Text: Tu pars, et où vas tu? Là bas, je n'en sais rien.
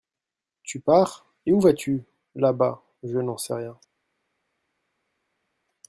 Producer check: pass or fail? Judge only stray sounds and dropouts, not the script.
pass